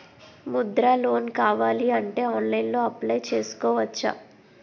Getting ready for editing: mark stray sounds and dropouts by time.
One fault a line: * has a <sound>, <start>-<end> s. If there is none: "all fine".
all fine